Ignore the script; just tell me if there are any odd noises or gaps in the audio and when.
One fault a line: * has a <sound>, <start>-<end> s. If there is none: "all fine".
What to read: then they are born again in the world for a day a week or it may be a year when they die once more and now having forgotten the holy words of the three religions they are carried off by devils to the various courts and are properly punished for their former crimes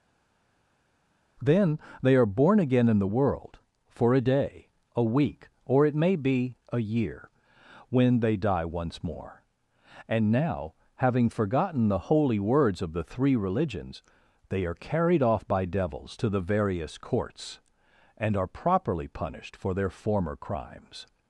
all fine